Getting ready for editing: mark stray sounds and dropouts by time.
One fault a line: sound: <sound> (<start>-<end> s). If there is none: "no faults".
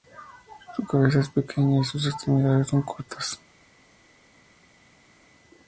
no faults